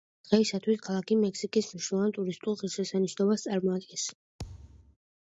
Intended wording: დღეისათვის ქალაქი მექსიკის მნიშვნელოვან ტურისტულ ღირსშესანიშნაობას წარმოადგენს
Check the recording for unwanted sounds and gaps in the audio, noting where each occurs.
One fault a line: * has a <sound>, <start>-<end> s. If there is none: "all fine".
* has a thud, 4.4-5.0 s